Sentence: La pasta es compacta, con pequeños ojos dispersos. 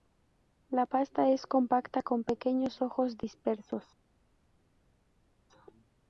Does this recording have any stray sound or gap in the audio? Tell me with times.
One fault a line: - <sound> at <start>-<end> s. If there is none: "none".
none